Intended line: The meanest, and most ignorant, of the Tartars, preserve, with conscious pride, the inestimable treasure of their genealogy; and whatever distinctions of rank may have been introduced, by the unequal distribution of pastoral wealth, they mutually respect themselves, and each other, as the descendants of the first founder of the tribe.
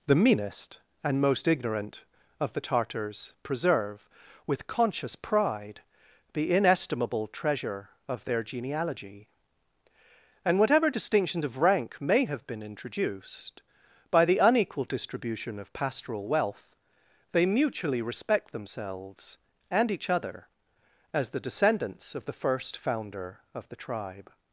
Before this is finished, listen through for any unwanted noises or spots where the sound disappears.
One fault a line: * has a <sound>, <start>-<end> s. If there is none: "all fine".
all fine